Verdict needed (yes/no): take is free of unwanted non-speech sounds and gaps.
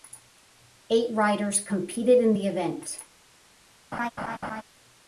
no